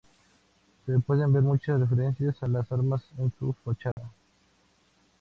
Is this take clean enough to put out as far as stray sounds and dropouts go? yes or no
no